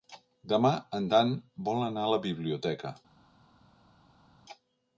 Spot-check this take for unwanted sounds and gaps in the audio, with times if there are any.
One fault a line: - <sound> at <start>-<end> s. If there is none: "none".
none